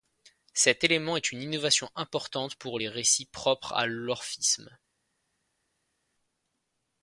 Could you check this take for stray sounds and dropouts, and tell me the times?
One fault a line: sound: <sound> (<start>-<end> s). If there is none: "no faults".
no faults